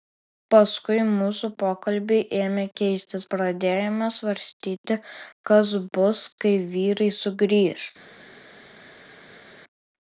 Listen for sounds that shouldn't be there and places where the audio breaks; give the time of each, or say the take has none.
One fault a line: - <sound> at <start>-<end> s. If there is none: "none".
none